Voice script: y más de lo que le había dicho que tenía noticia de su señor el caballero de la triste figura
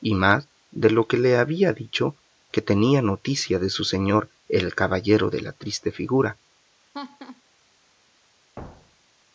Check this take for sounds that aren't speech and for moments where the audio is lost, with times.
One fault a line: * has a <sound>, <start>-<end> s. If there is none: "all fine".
* has a laugh, 6.9-7.4 s
* has a thud, 8.6-9.2 s